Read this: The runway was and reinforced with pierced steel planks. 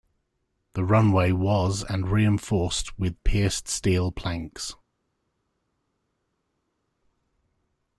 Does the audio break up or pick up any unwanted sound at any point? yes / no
no